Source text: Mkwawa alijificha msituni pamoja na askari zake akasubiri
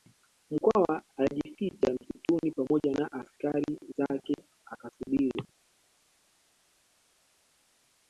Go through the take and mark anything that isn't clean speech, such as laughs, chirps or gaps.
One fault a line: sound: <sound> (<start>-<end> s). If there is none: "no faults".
no faults